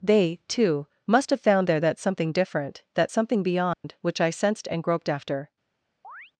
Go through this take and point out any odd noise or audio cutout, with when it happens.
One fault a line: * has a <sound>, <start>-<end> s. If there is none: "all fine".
* has a dropout, 3.7-3.8 s
* has a chirp, 6.0-6.3 s